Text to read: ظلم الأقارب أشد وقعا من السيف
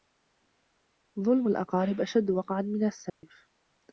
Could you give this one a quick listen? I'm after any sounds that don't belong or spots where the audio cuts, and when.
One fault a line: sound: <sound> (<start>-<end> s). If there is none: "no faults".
sound: dropout (3.1-3.2 s)